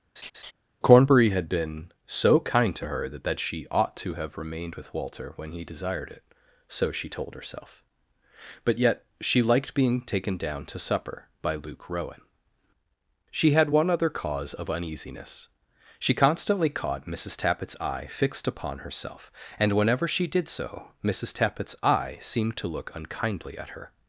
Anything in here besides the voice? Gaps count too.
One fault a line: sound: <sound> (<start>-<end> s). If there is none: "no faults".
sound: laugh (0.2-0.5 s)